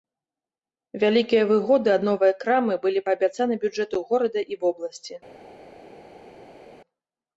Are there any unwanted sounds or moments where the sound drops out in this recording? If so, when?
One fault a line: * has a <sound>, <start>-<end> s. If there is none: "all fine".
all fine